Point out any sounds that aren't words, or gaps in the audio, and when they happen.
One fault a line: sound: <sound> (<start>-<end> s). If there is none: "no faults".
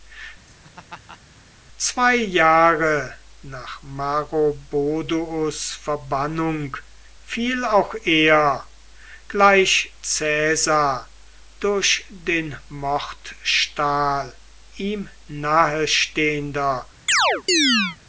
sound: laugh (0.5-1.2 s)
sound: chirp (17.1-18.0 s)